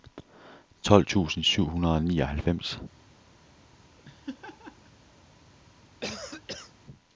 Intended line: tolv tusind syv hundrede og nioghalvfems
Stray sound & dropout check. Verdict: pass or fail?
fail